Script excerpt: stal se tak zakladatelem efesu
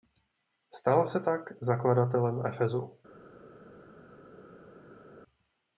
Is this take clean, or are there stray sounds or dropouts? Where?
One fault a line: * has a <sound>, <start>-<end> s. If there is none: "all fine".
all fine